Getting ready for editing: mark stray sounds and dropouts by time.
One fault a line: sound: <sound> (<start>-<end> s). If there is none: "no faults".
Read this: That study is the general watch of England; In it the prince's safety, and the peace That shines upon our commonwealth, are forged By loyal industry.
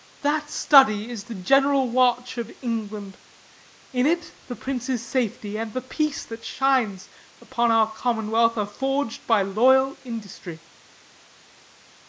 no faults